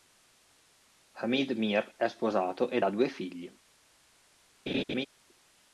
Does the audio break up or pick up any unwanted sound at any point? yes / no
yes